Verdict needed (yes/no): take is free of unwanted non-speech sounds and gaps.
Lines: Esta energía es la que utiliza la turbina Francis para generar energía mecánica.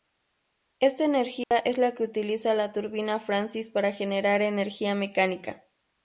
no